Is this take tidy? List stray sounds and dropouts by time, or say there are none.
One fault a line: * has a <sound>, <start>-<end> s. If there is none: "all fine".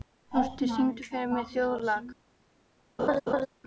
* has a laugh, 3.0-3.5 s